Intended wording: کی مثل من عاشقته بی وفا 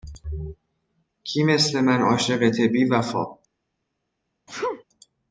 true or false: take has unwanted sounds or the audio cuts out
true